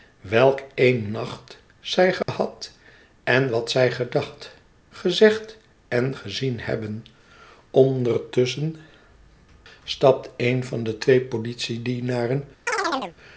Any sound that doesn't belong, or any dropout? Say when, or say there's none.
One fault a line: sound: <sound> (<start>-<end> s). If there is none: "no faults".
sound: dropout (2.2-2.3 s)
sound: chirp (12.7-13.2 s)